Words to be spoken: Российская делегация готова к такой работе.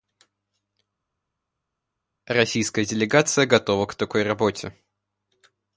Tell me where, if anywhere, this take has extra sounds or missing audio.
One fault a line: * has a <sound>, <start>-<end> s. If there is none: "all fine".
all fine